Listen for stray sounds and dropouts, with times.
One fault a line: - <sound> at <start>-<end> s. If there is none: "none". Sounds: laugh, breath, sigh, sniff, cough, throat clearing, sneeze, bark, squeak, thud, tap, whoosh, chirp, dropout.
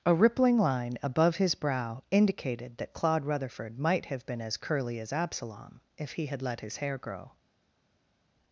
none